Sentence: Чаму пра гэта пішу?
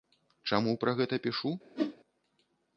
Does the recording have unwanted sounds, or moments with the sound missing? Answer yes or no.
yes